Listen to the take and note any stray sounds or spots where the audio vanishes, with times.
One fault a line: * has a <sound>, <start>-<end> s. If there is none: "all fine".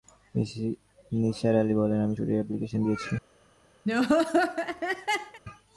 * has a laugh, 3.9-5.4 s